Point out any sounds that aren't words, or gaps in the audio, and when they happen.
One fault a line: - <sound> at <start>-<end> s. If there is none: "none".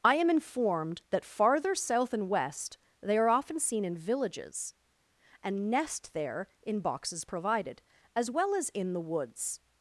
none